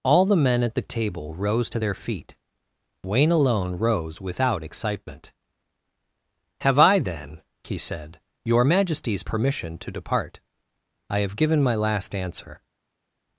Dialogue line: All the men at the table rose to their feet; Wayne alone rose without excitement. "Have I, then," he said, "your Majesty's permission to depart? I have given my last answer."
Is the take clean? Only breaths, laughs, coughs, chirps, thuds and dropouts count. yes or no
yes